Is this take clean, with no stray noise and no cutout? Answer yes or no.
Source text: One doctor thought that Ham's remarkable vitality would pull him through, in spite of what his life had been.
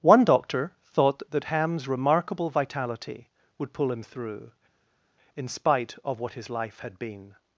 yes